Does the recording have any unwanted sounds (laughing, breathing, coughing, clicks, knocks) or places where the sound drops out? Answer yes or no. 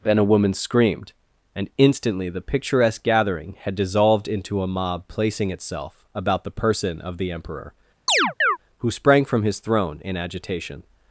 yes